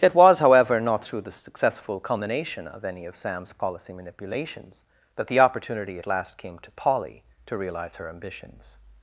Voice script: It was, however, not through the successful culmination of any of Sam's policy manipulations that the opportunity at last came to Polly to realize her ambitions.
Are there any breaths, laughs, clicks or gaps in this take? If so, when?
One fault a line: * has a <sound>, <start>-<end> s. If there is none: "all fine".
all fine